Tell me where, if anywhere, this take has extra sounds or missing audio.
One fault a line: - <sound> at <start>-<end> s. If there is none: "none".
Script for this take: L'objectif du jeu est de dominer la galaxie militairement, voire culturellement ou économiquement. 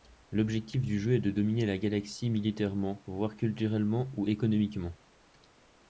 none